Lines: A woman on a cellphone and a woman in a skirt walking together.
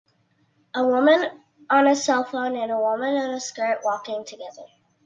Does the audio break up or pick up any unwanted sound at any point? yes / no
no